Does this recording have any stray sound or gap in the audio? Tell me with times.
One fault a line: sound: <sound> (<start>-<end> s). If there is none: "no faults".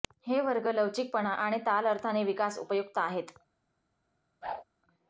sound: whoosh (4.4-4.6 s)